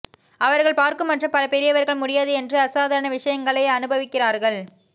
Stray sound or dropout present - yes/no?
no